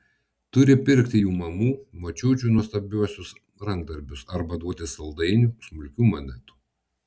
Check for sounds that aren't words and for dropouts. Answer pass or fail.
pass